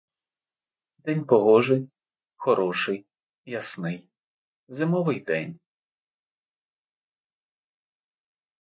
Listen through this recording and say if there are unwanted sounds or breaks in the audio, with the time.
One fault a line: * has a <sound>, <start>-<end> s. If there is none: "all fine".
all fine